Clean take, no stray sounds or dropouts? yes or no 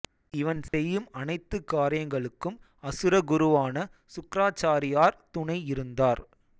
no